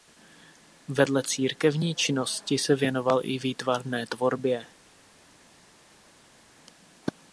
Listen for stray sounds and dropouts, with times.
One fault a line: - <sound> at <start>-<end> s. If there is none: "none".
none